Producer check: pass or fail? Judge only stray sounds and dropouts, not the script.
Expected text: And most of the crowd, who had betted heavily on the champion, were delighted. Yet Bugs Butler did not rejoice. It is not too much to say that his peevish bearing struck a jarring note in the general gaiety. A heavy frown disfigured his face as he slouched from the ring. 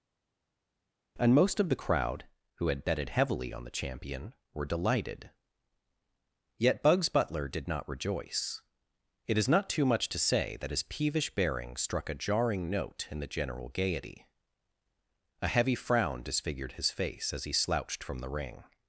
pass